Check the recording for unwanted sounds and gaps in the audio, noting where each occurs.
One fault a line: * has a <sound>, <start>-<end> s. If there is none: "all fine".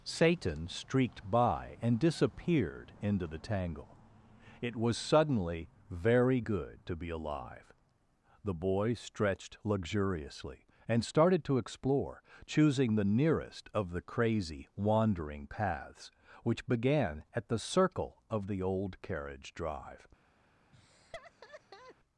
* has a laugh, 20.7-22.0 s